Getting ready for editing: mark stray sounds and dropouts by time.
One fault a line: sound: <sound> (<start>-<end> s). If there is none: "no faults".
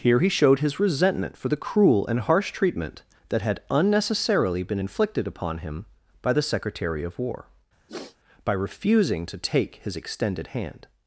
sound: sniff (7.9-8.2 s)